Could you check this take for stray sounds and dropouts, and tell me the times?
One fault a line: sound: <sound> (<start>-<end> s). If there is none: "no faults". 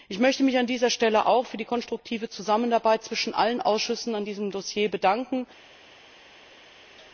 no faults